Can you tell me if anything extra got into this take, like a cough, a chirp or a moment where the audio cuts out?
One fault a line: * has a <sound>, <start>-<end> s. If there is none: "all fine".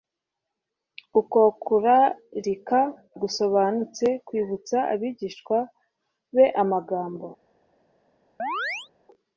* has a chirp, 8.4-8.9 s